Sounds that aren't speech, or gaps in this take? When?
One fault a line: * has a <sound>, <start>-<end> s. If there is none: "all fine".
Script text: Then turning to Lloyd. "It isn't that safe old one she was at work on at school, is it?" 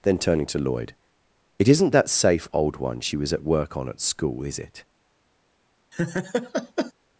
* has a laugh, 5.9-6.9 s